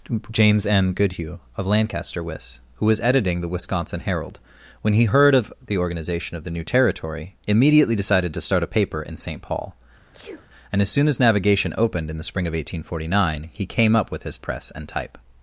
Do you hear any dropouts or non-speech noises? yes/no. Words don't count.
yes